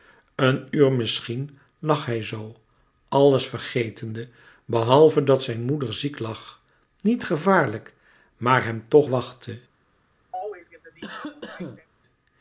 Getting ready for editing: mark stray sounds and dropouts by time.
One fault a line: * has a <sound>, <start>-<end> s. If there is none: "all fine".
* has a cough, 10.3-11.9 s